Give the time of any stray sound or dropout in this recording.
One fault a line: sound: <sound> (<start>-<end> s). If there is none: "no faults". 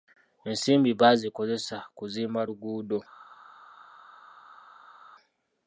no faults